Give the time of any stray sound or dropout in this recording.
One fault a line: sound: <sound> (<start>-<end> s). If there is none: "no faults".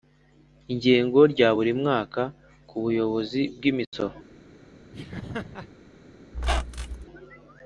sound: laugh (4.9-5.7 s)
sound: squeak (6.3-7.1 s)